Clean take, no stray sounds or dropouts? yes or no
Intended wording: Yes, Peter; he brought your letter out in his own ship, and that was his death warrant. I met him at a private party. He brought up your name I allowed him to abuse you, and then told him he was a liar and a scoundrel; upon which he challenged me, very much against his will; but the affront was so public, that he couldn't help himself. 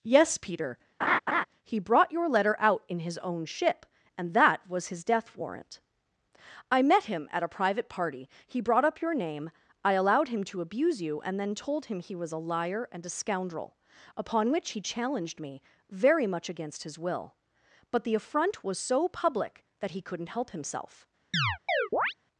no